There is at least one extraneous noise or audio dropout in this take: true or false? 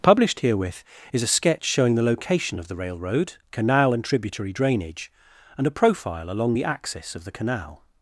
false